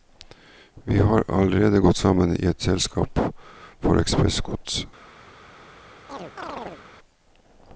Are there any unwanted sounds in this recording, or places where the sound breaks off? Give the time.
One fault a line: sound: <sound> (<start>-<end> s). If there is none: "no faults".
sound: chirp (6.1-6.8 s)